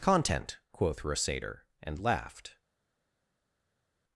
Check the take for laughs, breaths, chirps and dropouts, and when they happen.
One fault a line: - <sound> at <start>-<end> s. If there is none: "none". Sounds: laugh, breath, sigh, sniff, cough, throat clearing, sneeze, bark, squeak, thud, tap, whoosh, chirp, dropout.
none